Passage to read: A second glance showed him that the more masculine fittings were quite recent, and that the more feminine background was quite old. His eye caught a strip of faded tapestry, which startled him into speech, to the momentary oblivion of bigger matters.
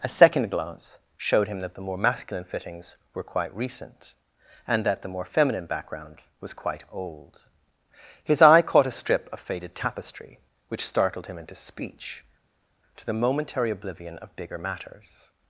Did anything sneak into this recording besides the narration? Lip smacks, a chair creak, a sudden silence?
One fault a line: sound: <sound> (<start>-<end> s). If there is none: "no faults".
no faults